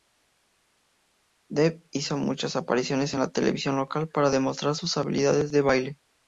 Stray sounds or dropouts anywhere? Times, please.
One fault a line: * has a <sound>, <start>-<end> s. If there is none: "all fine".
all fine